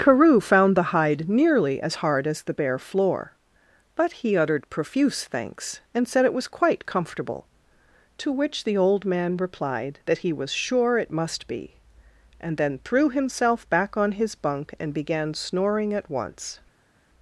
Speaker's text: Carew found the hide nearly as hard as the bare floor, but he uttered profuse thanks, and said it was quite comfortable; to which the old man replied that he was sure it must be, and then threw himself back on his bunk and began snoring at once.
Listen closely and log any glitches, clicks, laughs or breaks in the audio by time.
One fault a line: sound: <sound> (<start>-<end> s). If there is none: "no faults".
no faults